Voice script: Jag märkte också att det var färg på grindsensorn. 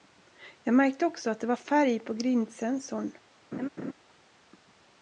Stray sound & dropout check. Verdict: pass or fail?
fail